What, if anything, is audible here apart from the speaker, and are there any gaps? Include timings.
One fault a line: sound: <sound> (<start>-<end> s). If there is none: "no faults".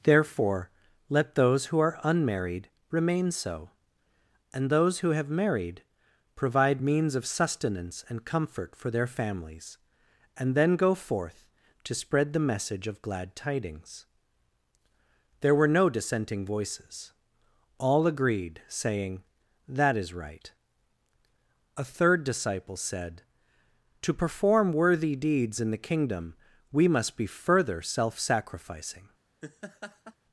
sound: laugh (29.4-30.2 s)